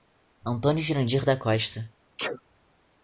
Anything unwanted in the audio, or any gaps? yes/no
yes